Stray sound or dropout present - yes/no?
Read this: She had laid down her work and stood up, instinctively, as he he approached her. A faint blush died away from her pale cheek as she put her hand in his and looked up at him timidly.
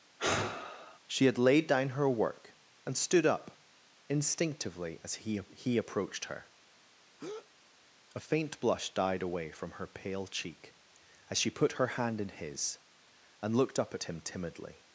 yes